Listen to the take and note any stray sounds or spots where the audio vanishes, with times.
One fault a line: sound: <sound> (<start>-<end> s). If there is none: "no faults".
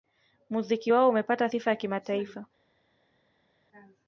no faults